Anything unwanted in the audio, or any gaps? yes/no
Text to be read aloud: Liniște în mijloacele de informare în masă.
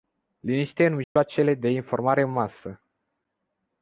yes